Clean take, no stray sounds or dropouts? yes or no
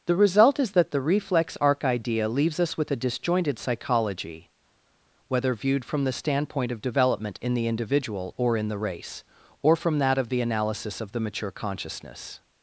yes